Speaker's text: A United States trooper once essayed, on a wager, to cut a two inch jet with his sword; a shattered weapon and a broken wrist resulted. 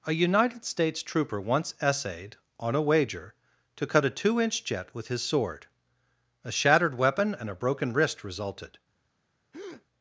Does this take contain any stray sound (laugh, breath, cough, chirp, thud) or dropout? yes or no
yes